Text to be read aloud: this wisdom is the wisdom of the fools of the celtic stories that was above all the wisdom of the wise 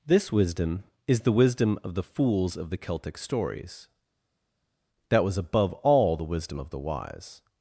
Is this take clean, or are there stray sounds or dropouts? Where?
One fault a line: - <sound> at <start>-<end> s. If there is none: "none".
none